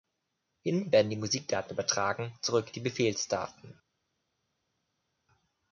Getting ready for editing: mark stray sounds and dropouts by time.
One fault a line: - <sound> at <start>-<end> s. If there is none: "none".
none